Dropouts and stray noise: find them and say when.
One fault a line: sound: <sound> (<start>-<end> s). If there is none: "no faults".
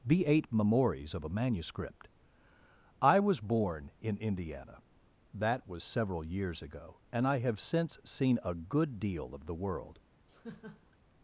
sound: laugh (10.3-11.0 s)